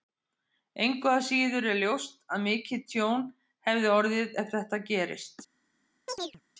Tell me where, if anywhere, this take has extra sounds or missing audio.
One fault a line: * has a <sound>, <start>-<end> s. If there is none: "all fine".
* has a chirp, 6.1-6.4 s